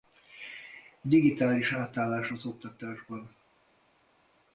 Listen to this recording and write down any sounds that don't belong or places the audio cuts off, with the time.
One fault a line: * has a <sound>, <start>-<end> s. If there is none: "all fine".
all fine